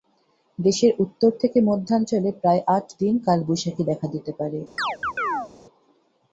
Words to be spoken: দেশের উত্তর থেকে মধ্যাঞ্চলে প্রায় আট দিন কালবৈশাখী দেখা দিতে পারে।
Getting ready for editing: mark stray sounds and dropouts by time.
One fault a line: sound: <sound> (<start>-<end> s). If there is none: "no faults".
sound: chirp (4.8-5.5 s)